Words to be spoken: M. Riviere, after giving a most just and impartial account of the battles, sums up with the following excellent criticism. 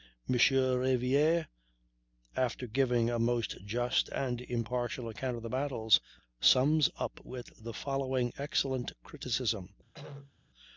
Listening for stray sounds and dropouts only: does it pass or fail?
fail